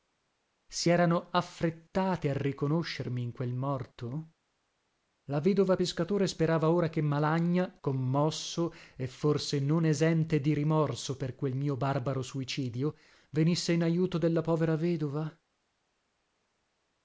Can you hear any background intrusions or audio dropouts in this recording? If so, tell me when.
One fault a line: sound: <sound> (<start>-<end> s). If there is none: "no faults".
no faults